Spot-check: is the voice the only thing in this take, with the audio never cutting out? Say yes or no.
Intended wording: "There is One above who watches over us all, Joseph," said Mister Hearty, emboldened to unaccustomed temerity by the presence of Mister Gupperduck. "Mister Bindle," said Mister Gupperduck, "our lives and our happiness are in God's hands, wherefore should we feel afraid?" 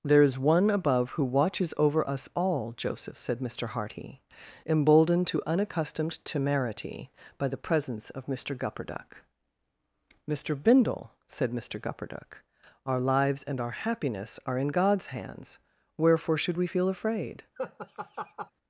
no